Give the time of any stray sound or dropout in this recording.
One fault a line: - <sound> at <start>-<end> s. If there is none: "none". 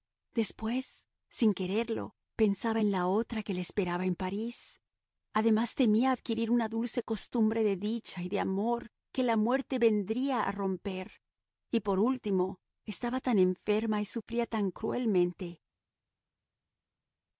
none